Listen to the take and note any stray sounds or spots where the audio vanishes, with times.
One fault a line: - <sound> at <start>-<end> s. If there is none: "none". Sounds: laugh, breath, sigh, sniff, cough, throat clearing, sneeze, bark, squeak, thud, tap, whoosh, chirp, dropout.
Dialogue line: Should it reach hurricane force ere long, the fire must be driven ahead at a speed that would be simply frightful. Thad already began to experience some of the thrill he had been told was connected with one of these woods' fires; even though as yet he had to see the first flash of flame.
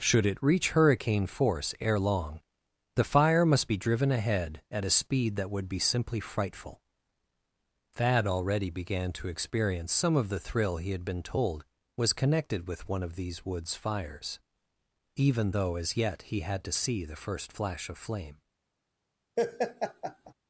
- laugh at 19.4-20.3 s